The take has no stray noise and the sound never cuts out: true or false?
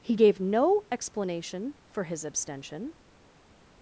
true